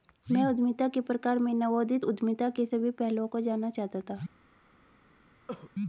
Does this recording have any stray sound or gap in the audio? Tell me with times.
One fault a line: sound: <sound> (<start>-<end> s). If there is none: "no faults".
sound: cough (5.5-5.7 s)